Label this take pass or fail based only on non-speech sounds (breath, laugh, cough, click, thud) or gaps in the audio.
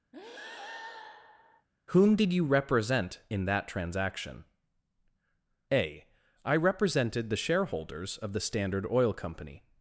fail